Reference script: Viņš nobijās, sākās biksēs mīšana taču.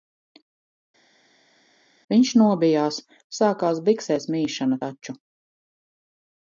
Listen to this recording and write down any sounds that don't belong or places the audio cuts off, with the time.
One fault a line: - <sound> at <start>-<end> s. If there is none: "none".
none